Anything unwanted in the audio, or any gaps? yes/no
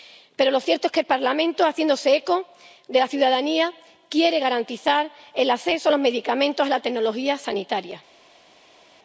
no